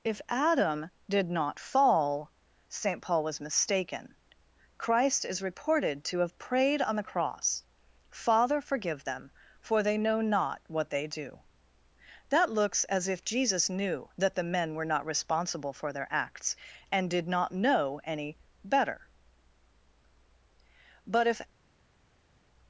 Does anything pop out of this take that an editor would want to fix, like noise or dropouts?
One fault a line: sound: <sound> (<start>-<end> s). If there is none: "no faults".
no faults